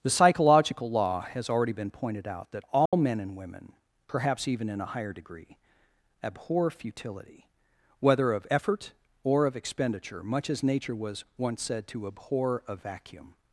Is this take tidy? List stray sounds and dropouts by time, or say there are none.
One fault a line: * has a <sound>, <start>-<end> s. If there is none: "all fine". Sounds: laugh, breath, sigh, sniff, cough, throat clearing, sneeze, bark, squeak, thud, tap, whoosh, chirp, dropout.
* has a dropout, 2.9-2.9 s